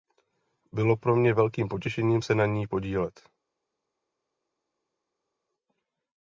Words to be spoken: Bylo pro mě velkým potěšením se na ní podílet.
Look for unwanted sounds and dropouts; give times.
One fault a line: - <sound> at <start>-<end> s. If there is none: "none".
none